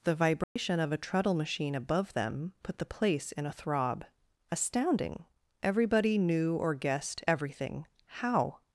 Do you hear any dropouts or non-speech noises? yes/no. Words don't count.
yes